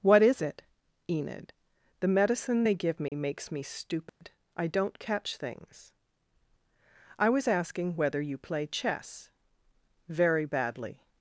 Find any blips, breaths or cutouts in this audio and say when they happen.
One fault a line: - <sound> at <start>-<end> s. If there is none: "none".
- dropout at 3.1-3.1 s
- dropout at 4.1-4.2 s